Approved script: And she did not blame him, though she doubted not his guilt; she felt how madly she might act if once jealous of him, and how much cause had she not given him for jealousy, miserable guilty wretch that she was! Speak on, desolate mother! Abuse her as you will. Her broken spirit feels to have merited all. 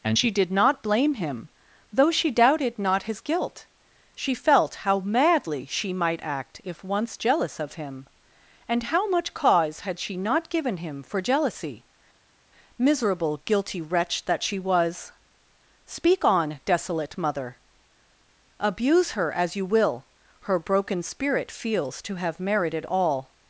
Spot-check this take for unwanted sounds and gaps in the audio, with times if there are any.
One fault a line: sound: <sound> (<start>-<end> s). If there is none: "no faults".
no faults